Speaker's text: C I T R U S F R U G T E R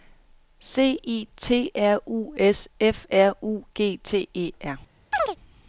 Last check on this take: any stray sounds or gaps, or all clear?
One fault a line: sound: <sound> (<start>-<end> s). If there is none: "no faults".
sound: chirp (5.1-5.4 s)